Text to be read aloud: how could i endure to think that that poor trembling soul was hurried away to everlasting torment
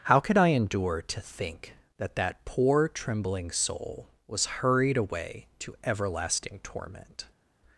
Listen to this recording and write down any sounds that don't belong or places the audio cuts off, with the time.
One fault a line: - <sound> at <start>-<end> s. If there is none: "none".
none